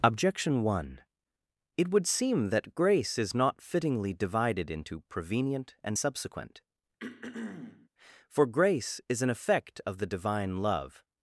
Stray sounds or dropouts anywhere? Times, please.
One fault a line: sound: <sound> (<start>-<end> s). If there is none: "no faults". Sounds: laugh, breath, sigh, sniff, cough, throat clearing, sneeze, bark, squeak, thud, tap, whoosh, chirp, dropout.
sound: throat clearing (7.0-7.9 s)